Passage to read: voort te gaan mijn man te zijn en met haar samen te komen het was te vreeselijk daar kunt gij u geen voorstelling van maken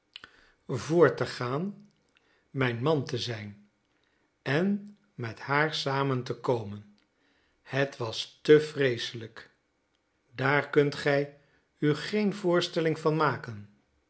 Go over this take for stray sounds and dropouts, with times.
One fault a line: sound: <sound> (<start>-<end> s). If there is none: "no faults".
no faults